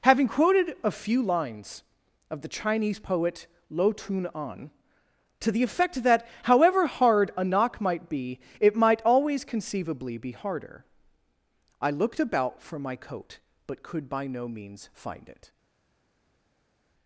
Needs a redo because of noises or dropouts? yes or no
no